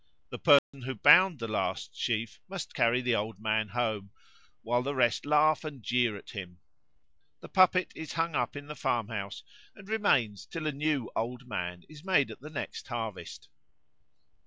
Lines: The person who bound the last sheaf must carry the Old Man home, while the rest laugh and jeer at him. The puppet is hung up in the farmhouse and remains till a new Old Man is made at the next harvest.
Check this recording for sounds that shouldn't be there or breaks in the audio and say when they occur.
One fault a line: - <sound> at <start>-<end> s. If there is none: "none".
- dropout at 0.6-0.7 s